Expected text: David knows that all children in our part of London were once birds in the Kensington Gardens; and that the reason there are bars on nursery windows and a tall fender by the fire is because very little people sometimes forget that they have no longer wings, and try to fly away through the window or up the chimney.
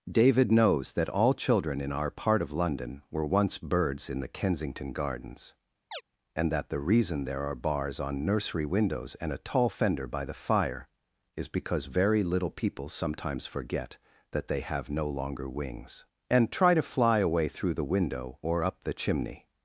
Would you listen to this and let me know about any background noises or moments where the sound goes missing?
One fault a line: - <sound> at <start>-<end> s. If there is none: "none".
- chirp at 5.9-6.0 s